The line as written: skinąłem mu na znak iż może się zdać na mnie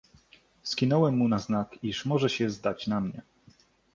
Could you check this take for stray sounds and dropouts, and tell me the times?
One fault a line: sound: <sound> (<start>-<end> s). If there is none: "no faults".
no faults